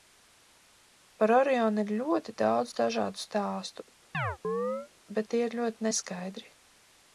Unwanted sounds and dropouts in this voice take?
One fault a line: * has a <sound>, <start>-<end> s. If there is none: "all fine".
* has a chirp, 4.1-4.9 s